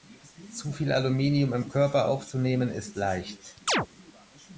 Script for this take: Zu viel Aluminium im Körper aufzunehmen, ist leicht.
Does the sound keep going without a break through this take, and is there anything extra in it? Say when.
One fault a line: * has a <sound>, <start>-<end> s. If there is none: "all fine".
* has a chirp, 3.7-3.9 s